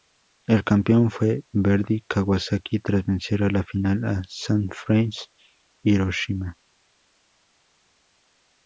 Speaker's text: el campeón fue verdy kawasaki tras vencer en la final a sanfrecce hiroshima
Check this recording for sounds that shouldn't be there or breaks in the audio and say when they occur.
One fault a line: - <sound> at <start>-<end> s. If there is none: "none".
none